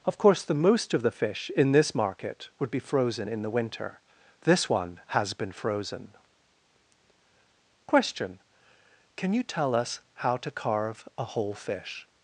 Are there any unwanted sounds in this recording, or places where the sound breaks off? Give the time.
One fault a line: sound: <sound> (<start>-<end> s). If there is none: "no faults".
no faults